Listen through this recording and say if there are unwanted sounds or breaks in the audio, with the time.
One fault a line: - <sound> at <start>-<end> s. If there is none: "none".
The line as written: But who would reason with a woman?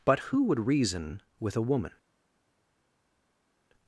none